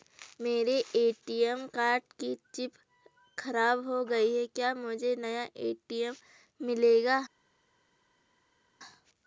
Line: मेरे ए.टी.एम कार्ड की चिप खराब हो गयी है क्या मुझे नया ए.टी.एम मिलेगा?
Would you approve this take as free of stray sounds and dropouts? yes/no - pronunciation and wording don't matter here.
yes